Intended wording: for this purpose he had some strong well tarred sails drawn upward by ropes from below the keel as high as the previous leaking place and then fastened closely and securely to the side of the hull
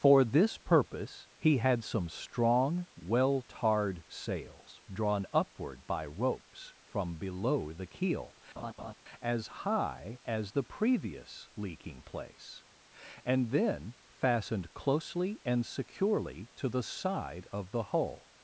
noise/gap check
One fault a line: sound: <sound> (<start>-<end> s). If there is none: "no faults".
sound: laugh (8.6-8.9 s)